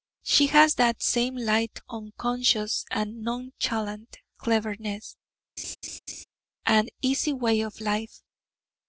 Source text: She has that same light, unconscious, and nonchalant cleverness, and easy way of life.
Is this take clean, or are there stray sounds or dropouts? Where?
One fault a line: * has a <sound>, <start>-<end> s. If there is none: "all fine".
* has a laugh, 5.6-6.2 s